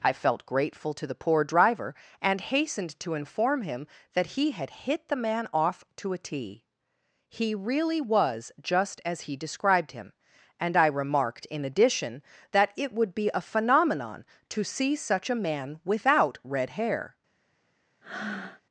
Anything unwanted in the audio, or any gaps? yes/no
yes